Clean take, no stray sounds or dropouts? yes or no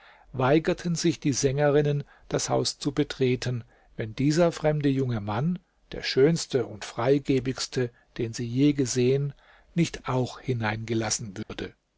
no